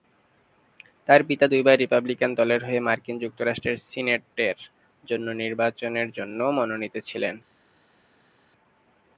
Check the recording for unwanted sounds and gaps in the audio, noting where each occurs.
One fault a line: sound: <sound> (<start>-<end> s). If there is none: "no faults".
no faults